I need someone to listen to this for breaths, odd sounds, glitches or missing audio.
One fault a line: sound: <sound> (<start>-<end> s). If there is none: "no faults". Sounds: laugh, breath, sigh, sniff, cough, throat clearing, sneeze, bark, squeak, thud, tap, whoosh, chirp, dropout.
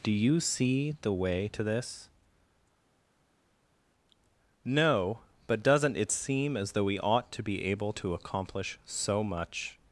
no faults